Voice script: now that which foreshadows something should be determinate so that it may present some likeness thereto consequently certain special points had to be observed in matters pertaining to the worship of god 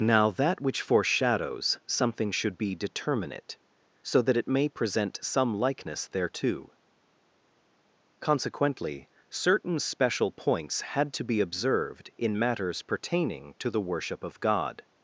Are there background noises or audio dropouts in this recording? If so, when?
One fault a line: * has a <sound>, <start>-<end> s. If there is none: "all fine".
all fine